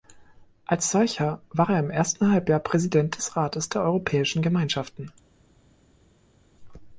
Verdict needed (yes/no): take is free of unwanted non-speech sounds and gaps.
yes